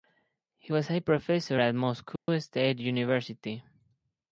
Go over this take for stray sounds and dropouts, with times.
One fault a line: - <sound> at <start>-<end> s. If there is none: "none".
- dropout at 2.2-2.3 s